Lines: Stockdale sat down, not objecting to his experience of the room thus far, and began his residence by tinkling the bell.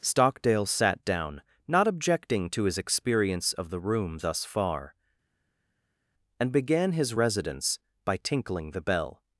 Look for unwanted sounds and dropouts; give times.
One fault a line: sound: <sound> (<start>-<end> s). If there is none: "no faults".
no faults